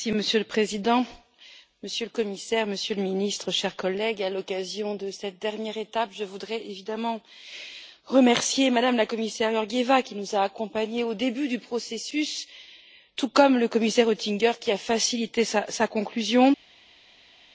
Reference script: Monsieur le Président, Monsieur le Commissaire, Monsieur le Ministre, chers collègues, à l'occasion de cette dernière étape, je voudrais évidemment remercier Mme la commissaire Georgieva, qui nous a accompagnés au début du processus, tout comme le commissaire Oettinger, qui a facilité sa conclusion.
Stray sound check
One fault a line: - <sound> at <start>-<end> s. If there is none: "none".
none